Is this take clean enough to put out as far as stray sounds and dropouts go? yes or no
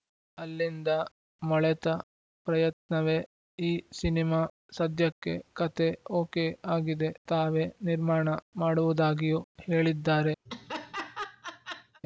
no